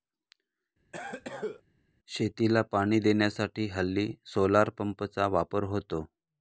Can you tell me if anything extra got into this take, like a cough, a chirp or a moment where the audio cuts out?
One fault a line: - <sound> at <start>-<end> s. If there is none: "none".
- cough at 0.9-1.6 s